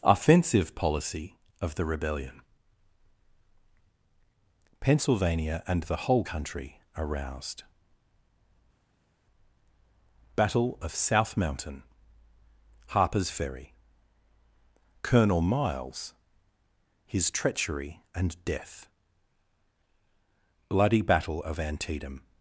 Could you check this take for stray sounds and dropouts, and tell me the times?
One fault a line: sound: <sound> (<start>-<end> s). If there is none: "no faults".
no faults